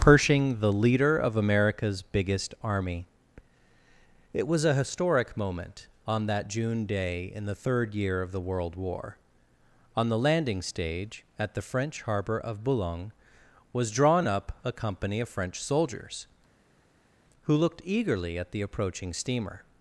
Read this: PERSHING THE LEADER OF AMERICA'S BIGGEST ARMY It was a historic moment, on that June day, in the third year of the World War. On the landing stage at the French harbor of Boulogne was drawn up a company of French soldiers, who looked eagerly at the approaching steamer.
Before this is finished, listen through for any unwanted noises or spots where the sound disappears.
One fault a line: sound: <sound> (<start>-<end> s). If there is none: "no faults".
no faults